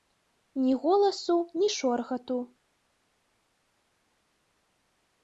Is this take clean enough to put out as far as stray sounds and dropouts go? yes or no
yes